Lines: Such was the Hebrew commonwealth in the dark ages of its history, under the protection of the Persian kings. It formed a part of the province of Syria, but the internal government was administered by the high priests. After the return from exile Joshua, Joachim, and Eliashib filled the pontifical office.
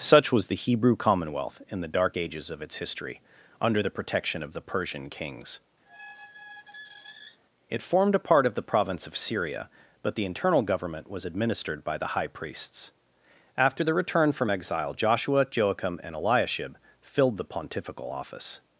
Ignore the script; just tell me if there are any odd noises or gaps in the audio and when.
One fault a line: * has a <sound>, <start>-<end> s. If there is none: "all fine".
* has a squeak, 5.8-7.4 s